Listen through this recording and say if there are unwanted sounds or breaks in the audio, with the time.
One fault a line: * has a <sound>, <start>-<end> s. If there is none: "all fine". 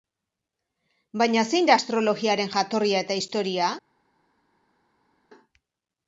all fine